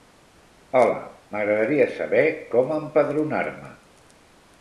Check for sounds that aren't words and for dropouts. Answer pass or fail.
pass